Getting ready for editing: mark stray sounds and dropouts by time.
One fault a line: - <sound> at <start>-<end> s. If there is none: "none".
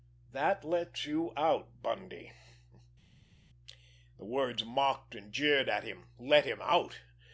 none